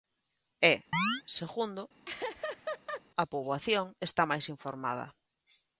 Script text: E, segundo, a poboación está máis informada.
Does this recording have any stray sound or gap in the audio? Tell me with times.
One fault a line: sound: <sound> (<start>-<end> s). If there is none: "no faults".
sound: chirp (0.9-1.2 s)
sound: laugh (2.0-3.0 s)